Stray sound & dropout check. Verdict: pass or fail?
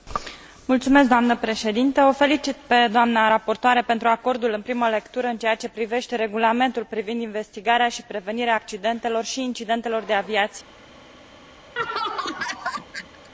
fail